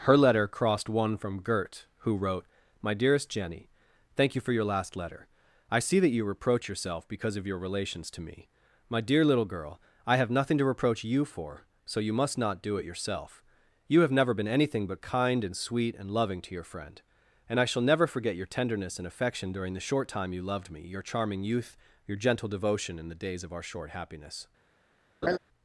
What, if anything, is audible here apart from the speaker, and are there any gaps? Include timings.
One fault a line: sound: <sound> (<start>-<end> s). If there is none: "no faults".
sound: laugh (25.2-25.4 s)